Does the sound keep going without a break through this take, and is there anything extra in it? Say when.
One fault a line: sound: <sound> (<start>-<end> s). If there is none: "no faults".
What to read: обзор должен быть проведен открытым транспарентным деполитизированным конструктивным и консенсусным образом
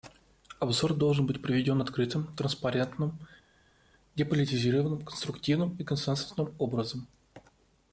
no faults